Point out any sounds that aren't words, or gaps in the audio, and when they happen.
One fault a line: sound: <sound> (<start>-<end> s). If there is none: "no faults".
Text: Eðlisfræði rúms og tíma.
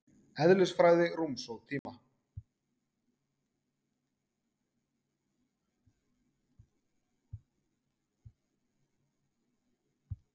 sound: dropout (1.8-1.9 s)